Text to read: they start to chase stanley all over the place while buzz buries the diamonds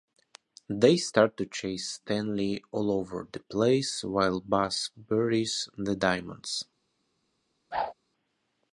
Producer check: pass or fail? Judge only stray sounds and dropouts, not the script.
fail